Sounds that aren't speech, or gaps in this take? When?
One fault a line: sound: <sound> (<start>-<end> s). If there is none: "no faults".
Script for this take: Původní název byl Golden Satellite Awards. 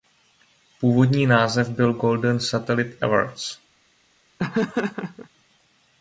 sound: laugh (4.4-5.3 s)